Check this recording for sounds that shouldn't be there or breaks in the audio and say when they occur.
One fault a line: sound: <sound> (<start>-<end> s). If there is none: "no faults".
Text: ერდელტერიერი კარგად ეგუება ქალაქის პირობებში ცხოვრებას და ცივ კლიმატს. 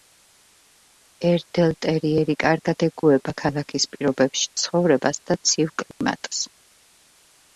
sound: dropout (5.9-6.0 s)